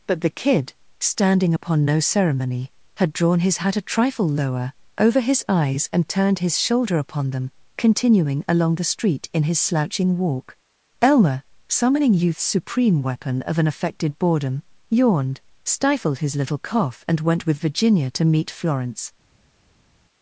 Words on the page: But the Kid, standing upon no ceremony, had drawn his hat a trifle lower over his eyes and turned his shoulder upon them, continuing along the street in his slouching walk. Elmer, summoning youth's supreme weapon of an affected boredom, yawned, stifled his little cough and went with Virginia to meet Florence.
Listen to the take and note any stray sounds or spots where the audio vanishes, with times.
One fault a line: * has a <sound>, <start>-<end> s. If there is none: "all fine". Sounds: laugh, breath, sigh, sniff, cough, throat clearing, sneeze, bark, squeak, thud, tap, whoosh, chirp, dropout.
all fine